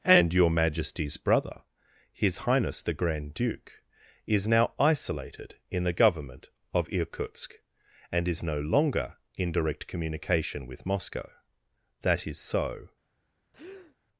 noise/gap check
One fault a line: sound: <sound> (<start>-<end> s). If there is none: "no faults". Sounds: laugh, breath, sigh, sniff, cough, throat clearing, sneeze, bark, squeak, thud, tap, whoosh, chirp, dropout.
sound: breath (13.5-14.0 s)